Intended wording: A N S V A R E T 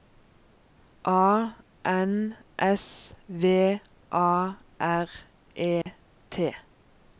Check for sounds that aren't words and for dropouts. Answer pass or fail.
fail